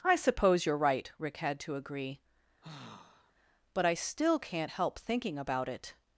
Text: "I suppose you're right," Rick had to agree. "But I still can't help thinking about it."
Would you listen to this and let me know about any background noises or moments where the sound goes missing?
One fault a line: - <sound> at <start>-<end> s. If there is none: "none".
- sigh at 2.6-3.3 s